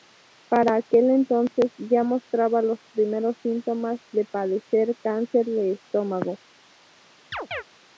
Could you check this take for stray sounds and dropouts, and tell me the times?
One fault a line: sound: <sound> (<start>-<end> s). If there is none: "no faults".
sound: chirp (7.3-7.6 s)